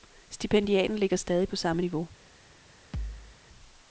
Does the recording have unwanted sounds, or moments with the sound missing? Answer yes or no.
yes